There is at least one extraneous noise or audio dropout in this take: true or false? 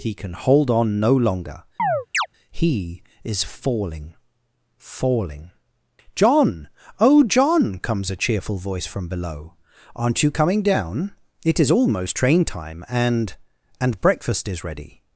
true